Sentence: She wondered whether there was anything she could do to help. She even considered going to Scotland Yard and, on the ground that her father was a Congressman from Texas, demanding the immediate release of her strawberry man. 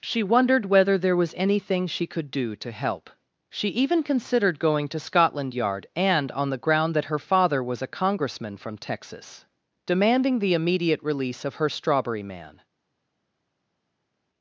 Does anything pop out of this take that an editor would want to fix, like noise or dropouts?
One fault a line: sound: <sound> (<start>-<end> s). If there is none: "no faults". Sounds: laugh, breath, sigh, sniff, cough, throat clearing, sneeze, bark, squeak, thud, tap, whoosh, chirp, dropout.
no faults